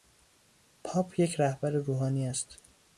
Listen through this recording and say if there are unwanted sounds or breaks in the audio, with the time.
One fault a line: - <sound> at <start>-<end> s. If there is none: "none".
none